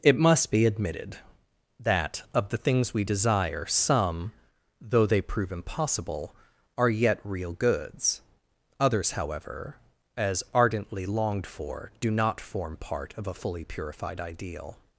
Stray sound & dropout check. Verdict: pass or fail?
pass